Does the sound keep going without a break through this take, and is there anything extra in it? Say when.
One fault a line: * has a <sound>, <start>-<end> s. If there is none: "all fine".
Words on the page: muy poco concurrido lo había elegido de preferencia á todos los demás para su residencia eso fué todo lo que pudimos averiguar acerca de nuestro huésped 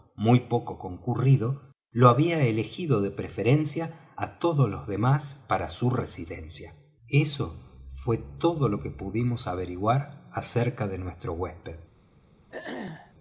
* has a throat clearing, 12.5-13.1 s